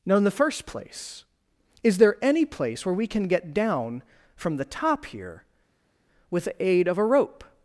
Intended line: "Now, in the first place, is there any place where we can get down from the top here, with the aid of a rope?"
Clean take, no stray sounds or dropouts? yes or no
yes